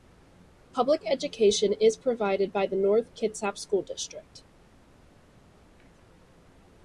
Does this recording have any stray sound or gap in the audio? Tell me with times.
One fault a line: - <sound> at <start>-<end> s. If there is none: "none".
none